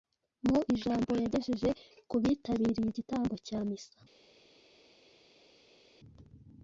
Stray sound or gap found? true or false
false